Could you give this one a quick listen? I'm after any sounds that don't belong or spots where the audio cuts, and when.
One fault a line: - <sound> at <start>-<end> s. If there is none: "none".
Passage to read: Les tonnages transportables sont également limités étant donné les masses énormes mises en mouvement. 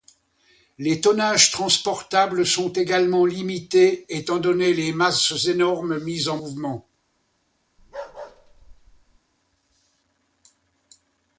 - bark at 7.8-9.2 s